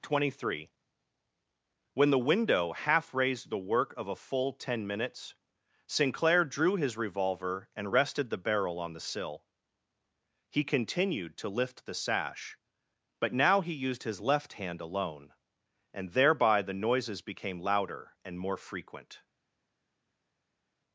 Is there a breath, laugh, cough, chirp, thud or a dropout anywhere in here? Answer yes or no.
no